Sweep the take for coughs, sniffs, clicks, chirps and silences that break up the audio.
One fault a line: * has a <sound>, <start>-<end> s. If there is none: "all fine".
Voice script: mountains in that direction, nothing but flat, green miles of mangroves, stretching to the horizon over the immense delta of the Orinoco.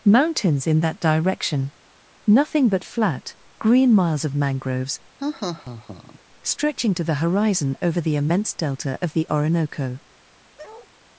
* has a laugh, 5.2-6.2 s
* has a bark, 10.6-10.9 s